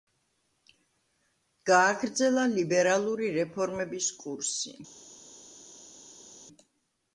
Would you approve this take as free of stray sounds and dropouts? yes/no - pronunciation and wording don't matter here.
yes